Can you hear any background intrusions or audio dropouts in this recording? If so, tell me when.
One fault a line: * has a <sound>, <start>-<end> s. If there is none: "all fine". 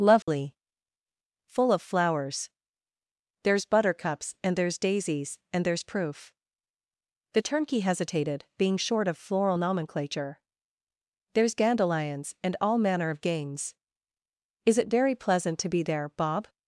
* has a dropout, 0.2-0.3 s